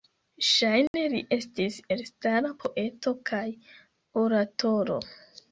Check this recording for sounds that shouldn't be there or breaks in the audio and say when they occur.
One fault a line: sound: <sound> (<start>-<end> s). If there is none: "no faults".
sound: dropout (0.9-0.9 s)